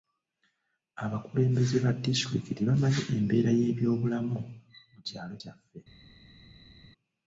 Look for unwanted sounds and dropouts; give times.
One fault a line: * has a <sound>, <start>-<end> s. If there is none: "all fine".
all fine